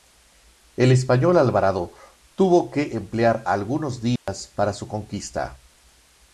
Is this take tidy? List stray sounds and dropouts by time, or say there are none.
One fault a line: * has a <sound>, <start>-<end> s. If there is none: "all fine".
* has a dropout, 4.2-4.3 s